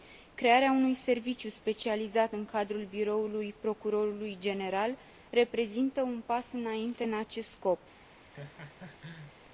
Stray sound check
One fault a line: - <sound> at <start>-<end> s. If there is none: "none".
- laugh at 8.3-9.4 s